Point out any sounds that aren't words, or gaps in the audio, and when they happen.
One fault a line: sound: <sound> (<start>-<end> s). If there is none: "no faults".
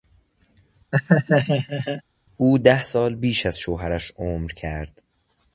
sound: laugh (0.9-2.0 s)